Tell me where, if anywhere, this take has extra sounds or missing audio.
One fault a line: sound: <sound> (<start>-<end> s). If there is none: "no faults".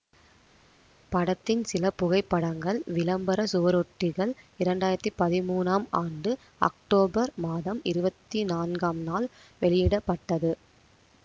no faults